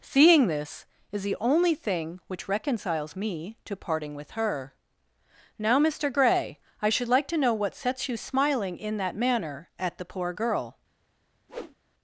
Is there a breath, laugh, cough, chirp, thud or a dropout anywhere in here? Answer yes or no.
yes